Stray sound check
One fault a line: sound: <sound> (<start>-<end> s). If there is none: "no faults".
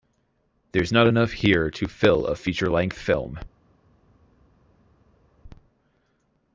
no faults